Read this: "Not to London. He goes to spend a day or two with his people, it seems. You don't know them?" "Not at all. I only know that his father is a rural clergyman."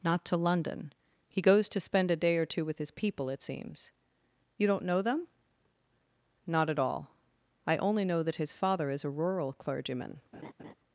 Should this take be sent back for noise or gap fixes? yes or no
yes